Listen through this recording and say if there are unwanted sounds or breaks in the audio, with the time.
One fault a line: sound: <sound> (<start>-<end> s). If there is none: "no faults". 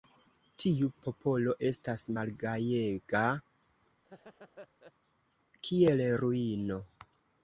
sound: laugh (4.0-4.9 s)